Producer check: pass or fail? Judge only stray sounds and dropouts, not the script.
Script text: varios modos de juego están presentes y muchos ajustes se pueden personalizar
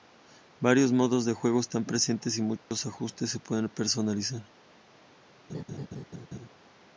fail